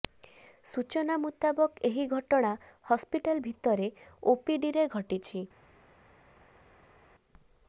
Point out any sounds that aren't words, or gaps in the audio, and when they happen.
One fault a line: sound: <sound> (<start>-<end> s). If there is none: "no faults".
no faults